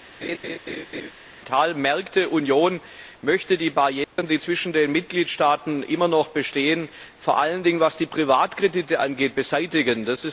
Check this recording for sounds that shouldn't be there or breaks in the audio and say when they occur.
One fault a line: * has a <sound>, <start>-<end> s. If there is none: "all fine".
* has a laugh, 0.2-1.1 s
* has a dropout, 4.0-4.2 s